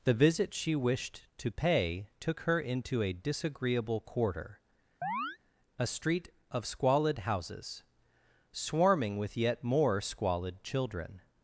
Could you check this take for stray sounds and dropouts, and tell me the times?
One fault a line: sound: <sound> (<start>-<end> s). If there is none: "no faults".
sound: chirp (5.0-5.4 s)